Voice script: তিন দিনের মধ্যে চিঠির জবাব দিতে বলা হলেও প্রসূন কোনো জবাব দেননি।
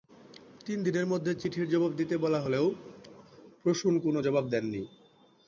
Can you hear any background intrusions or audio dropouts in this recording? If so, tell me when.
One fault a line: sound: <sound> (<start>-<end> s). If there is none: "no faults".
no faults